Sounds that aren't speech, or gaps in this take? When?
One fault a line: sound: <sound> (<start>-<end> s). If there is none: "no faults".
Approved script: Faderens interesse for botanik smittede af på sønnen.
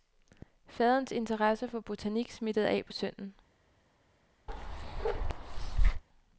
sound: bark (4.5-6.0 s)